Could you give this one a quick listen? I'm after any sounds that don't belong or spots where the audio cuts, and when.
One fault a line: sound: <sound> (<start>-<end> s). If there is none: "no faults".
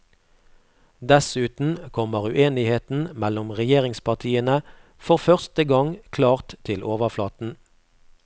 no faults